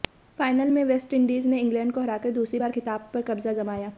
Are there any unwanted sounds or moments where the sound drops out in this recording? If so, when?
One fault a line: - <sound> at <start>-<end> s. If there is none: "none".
none